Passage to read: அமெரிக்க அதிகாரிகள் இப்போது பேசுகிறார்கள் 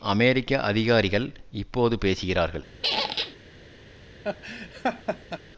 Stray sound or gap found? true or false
true